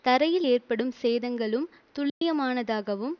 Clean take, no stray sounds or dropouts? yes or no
no